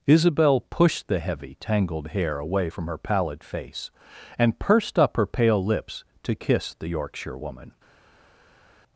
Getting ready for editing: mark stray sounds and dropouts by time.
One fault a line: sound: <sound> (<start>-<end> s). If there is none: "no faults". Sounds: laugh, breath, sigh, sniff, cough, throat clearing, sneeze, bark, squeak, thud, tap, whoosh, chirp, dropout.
no faults